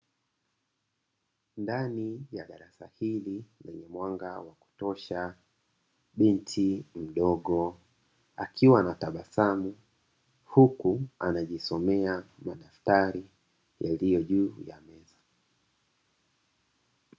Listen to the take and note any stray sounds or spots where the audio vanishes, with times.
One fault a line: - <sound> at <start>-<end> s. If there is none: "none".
none